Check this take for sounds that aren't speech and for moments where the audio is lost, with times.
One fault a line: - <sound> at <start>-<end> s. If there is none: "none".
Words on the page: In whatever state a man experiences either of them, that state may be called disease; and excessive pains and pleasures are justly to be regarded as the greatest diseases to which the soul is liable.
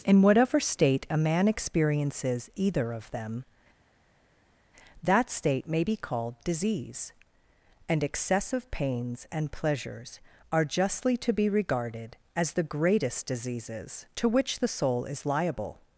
none